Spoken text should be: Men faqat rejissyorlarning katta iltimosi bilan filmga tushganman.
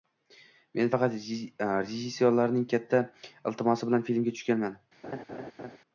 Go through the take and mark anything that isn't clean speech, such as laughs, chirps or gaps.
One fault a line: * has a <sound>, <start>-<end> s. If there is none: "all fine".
* has a laugh, 5.0-5.8 s